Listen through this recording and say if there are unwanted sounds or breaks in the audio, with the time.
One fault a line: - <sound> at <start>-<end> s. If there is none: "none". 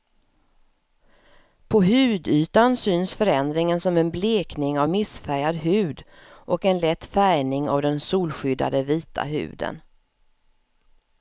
none